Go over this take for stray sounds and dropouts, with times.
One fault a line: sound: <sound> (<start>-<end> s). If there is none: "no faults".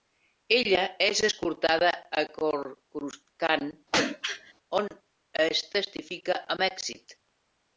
sound: throat clearing (3.9-4.5 s)